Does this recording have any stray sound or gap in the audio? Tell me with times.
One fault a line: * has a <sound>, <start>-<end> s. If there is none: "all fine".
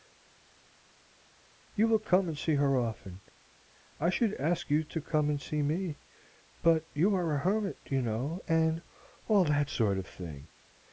all fine